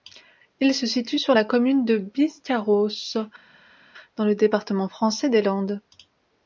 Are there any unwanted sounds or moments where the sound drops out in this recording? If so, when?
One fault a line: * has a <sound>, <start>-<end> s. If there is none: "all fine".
all fine